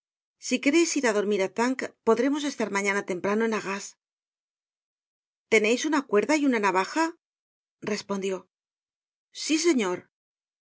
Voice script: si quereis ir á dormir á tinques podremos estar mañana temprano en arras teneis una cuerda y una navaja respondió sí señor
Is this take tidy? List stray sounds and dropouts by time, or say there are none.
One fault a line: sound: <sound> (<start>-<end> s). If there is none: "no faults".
no faults